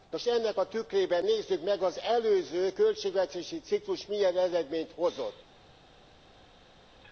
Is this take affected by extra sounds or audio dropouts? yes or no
no